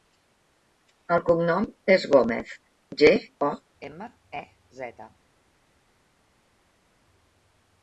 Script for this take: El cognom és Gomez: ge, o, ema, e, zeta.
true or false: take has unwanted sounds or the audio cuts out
false